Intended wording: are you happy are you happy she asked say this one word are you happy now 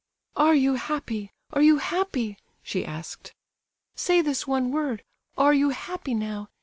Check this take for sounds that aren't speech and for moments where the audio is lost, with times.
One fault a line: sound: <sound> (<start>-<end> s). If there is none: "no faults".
no faults